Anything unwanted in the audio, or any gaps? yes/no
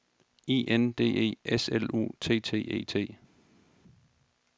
no